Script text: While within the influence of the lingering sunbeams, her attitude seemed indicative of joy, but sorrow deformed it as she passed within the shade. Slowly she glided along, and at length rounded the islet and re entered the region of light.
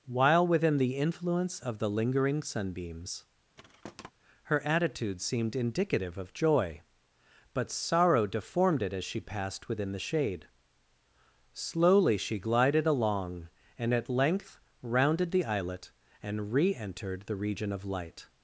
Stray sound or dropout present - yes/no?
yes